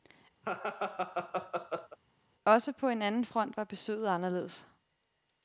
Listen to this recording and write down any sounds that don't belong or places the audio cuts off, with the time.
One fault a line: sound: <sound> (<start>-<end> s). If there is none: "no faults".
sound: laugh (0.4-2.0 s)